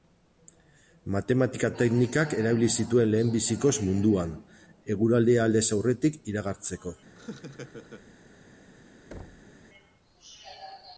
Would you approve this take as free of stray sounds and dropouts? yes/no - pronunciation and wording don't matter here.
no